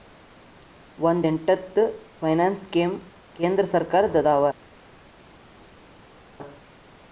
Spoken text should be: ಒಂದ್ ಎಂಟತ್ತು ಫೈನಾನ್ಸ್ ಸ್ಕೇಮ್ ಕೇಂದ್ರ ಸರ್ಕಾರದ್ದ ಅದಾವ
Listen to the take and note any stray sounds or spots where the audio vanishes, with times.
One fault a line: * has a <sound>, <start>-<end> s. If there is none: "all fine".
all fine